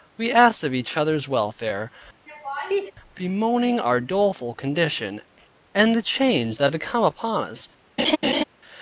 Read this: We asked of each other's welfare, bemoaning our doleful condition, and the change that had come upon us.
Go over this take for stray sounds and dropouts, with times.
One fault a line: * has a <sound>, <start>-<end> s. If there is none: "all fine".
* has a laugh, 2.3-2.9 s
* has a laugh, 8.0-8.4 s